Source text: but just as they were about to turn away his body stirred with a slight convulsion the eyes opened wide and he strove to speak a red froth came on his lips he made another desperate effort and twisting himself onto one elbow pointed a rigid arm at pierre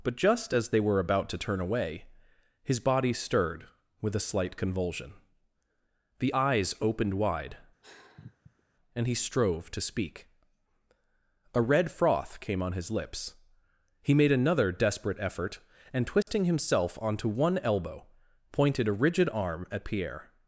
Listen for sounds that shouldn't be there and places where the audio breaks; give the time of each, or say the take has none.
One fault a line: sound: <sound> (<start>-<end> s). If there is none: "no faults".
sound: sigh (7.8-8.6 s)
sound: dropout (16.2-16.3 s)